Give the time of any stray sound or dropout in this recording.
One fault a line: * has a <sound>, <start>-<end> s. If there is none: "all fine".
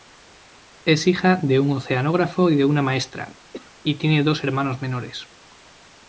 * has a cough, 3.5-3.7 s